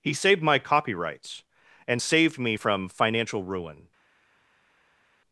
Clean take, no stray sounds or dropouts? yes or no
yes